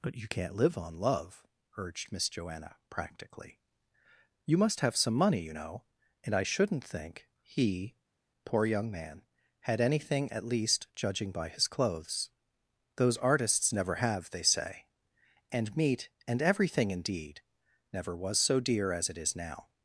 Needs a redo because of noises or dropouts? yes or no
no